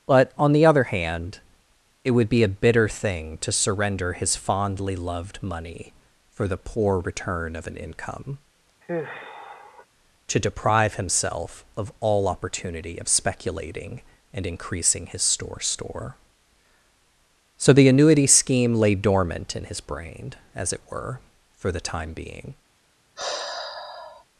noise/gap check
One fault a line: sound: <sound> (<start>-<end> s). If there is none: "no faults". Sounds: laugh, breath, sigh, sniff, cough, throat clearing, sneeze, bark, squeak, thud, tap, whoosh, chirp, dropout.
sound: sigh (8.8-9.9 s)
sound: sigh (23.2-24.2 s)